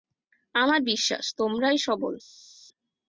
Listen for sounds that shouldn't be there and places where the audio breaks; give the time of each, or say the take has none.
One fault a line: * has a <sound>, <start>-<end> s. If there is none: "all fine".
all fine